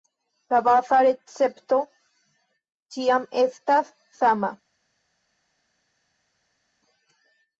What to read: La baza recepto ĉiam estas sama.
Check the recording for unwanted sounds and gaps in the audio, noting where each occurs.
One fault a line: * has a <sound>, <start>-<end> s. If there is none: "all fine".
all fine